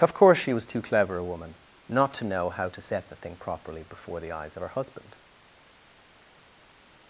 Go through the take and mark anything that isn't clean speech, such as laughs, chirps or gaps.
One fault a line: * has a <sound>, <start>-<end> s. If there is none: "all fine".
all fine